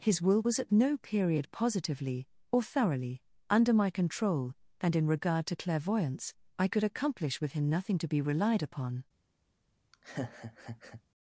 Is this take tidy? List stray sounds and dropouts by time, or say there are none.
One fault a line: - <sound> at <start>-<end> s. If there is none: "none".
- laugh at 9.9-11.0 s